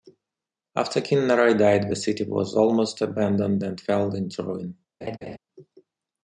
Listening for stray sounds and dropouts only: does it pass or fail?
fail